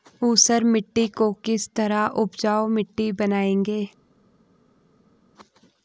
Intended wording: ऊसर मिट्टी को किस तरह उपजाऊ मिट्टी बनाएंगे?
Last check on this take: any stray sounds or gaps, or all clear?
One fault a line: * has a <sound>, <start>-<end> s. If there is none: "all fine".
all fine